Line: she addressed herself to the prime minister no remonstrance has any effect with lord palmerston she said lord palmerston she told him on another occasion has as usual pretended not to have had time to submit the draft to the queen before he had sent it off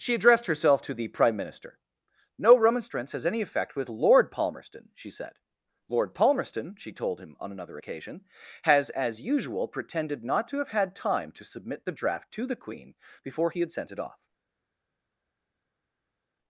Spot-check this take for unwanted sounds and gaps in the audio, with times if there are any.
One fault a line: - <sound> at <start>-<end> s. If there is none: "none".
none